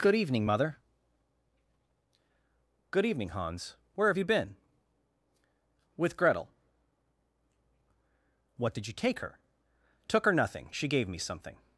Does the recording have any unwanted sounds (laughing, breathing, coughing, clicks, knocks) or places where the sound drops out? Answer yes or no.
no